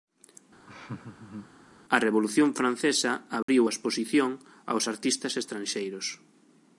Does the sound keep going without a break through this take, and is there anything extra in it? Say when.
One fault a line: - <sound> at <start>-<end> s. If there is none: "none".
- laugh at 0.7-1.5 s
- dropout at 3.4-3.5 s